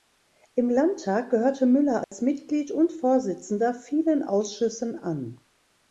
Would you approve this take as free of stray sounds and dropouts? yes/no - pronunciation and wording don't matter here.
no